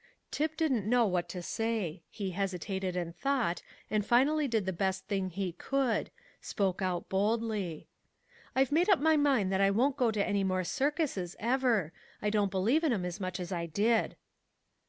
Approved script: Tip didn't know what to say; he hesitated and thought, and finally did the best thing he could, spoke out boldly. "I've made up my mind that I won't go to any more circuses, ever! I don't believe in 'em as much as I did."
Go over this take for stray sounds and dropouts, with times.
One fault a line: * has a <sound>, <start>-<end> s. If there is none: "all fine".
all fine